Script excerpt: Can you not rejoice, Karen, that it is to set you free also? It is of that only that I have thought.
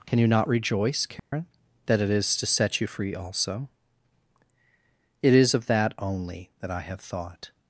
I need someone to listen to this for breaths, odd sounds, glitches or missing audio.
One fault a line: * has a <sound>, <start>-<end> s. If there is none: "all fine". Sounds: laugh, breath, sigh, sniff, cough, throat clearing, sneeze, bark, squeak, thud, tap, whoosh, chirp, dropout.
* has a dropout, 1.2-1.3 s